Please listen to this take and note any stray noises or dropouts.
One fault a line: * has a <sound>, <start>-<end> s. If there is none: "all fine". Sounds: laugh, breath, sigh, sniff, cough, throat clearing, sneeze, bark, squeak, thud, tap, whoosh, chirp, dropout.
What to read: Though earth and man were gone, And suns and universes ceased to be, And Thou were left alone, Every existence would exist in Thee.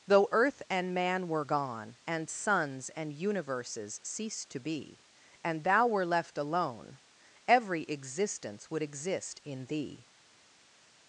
all fine